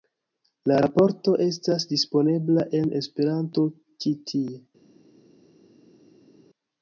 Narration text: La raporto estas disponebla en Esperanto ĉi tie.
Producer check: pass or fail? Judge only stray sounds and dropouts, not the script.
pass